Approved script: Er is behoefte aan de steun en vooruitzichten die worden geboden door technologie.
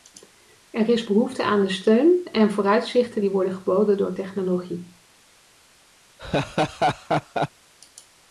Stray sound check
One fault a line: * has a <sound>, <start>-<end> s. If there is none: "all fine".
* has a laugh, 6.2-7.5 s